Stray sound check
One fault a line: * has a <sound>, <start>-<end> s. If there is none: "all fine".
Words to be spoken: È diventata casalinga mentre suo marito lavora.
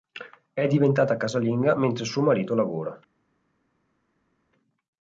all fine